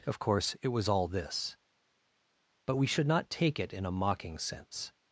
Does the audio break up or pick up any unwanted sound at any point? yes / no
no